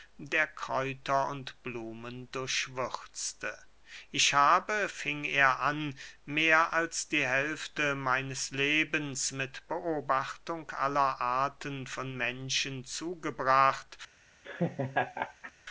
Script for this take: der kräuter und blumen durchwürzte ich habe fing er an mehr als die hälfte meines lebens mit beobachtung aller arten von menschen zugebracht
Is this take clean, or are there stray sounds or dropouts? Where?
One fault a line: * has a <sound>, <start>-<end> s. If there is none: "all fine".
* has a laugh, 14.4-15.5 s